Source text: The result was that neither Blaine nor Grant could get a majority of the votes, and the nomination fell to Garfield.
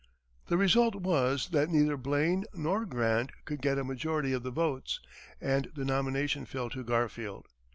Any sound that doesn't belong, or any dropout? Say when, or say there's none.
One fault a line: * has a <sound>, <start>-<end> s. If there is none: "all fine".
all fine